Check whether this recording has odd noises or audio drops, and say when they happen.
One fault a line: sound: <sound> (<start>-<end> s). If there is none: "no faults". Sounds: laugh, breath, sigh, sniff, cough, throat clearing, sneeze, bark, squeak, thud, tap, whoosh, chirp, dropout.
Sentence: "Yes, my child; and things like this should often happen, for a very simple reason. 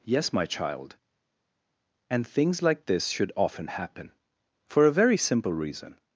no faults